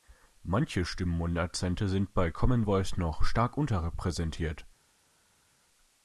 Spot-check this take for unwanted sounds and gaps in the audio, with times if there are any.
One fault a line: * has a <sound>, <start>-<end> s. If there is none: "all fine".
all fine